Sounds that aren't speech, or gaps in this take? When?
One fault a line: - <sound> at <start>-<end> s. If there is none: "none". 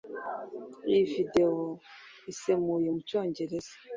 none